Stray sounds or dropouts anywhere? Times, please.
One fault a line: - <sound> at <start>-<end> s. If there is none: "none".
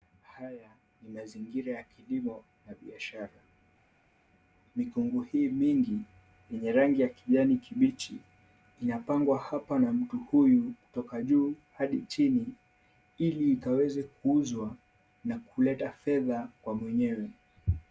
none